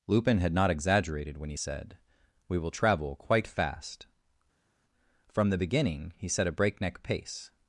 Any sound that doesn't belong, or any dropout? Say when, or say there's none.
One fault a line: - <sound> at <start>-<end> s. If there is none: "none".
none